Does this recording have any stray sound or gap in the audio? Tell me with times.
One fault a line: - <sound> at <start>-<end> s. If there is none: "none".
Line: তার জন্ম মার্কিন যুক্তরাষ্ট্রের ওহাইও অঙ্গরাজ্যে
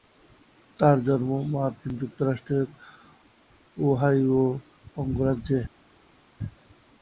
none